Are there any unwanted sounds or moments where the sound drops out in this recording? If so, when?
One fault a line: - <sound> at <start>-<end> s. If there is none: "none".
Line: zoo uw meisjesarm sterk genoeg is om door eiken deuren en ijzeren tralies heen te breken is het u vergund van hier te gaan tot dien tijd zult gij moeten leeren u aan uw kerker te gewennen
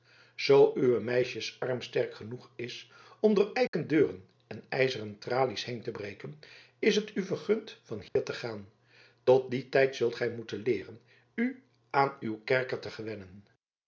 - dropout at 3.7-3.7 s
- dropout at 8.1-8.2 s